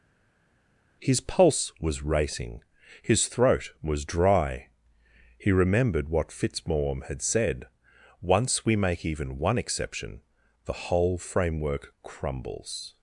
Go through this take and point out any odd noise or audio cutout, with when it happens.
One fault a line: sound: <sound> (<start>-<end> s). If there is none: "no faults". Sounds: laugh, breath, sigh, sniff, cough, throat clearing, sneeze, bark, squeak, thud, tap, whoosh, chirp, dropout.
no faults